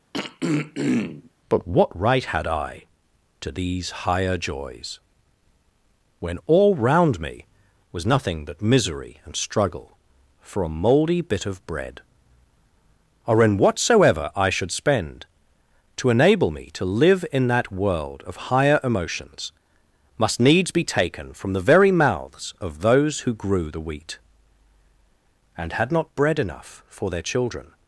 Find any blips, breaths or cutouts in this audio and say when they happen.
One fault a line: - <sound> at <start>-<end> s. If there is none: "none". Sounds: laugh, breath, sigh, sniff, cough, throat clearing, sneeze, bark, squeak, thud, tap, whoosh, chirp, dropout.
- throat clearing at 0.1-1.3 s